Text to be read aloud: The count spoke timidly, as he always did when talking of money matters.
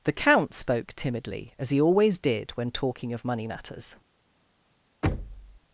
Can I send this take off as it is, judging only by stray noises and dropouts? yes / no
no